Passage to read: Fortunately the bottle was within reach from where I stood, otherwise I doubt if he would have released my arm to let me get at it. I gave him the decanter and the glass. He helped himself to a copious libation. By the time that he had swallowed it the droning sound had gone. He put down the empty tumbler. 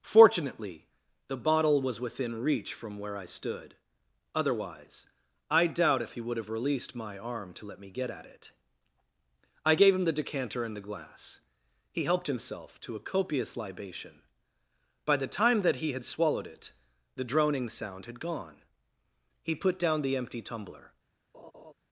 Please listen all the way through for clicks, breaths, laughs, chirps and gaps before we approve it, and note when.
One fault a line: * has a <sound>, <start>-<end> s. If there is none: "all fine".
* has a laugh, 21.3-21.7 s